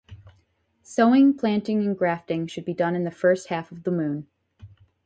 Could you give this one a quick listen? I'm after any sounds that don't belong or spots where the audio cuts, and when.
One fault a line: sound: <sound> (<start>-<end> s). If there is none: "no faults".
no faults